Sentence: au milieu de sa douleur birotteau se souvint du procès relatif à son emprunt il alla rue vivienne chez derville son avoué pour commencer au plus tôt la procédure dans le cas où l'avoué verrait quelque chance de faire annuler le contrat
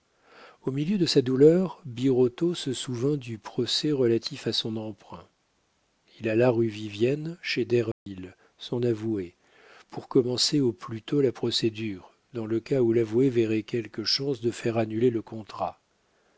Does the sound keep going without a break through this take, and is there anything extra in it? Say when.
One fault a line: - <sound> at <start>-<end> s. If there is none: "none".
- dropout at 7.9-8.1 s